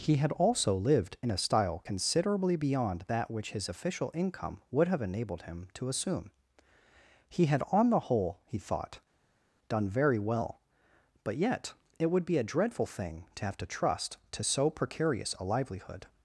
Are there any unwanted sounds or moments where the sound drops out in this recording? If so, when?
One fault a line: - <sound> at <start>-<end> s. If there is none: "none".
none